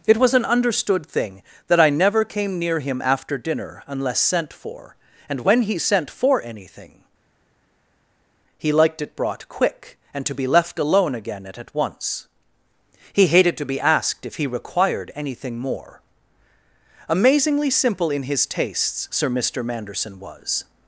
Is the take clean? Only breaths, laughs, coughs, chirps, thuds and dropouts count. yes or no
yes